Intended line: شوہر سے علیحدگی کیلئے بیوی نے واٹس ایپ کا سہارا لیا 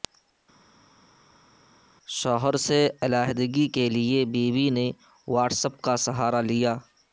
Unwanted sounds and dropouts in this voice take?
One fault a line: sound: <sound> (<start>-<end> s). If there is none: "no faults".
no faults